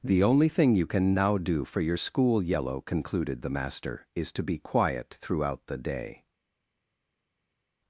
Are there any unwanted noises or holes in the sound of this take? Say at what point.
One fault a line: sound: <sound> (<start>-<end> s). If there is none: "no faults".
no faults